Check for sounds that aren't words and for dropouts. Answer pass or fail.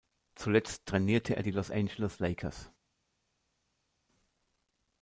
pass